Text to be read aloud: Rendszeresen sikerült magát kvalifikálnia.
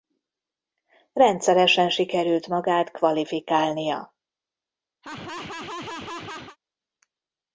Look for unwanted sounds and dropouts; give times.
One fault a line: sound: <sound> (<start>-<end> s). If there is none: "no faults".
sound: laugh (5.0-6.6 s)